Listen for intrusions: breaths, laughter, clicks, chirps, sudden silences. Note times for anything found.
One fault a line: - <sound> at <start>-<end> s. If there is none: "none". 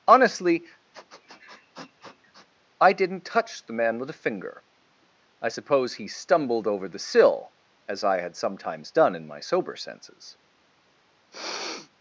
- sniff at 0.9-2.5 s
- sniff at 11.3-11.9 s